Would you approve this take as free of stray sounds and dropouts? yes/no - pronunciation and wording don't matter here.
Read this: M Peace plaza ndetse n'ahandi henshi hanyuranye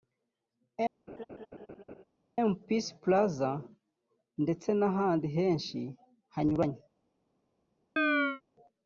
no